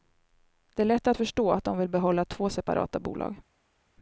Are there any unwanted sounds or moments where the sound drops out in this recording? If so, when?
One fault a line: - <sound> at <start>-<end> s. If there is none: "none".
none